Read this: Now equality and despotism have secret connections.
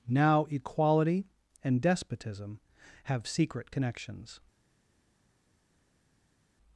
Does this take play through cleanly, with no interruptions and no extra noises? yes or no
yes